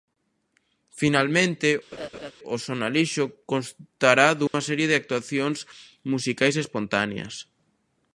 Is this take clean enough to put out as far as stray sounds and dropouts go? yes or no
no